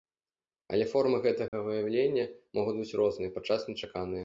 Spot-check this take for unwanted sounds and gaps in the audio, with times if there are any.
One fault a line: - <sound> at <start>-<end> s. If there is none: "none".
- dropout at 1.5-1.5 s